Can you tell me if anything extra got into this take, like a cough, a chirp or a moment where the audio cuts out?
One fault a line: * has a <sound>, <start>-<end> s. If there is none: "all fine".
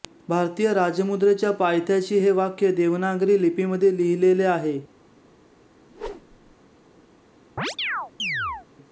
* has a whoosh, 5.9-6.6 s
* has a chirp, 7.6-8.7 s